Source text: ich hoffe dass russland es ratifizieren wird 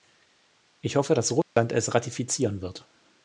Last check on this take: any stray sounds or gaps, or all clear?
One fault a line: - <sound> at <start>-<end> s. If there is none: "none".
- dropout at 1.4-1.6 s